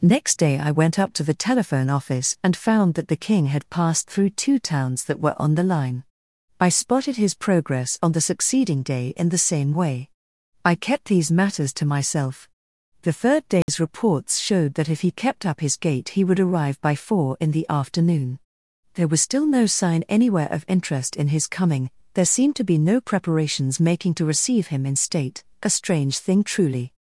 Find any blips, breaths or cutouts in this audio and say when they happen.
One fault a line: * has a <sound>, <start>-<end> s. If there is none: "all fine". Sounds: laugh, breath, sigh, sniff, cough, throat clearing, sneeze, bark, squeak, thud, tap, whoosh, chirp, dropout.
* has a dropout, 13.6-13.7 s